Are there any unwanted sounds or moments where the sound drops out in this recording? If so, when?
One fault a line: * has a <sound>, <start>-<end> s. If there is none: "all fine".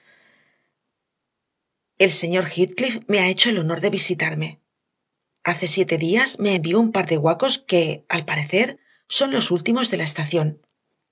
all fine